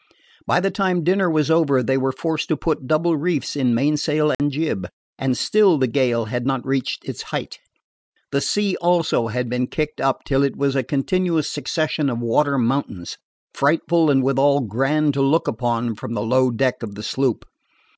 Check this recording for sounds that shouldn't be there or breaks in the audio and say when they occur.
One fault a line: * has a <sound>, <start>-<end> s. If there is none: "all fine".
* has a dropout, 4.3-4.4 s